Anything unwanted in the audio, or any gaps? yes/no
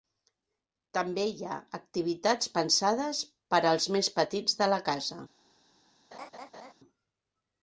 yes